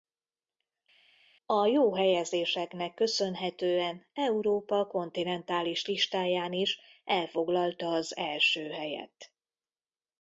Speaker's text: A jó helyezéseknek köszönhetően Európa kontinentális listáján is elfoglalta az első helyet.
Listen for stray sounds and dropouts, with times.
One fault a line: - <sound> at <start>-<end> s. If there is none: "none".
none